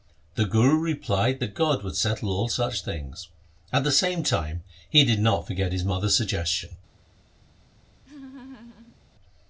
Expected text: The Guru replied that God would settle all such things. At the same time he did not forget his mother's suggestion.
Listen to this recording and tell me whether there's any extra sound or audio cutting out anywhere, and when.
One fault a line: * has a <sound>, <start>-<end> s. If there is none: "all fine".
* has a laugh, 8.0-9.0 s